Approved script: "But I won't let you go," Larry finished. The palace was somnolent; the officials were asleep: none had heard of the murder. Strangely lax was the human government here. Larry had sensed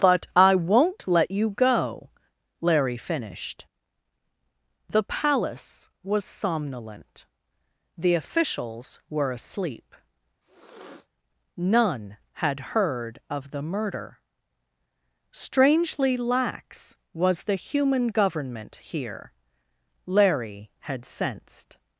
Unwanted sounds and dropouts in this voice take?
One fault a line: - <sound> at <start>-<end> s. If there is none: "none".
- sniff at 10.4-11.1 s